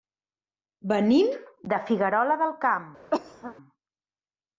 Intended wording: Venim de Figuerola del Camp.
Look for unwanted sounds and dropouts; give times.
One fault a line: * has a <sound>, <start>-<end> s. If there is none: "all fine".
* has a cough, 3.1-3.6 s